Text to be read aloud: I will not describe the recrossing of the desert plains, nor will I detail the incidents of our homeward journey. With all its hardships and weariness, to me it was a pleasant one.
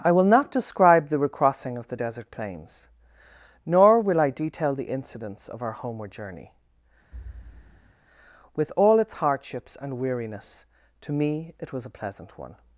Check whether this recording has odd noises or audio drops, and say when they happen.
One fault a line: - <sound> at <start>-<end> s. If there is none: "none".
- thud at 7.1-7.9 s